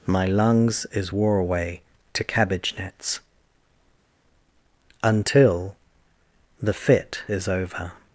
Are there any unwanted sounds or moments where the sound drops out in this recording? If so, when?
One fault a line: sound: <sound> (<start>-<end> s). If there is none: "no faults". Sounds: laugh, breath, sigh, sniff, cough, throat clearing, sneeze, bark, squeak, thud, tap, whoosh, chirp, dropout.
no faults